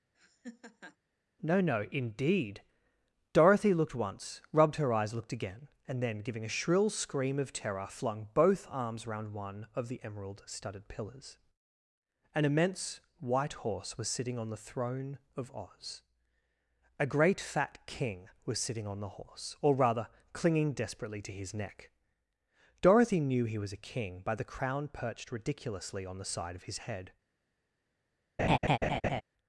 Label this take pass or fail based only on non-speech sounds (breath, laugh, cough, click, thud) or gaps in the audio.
fail